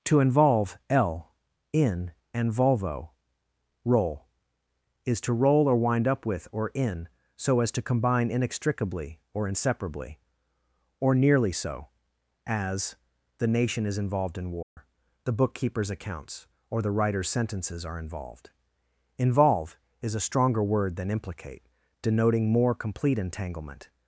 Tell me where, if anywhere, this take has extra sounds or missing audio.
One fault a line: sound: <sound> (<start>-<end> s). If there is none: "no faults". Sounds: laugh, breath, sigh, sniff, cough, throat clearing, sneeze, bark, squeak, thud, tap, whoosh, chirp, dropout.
sound: dropout (14.6-14.8 s)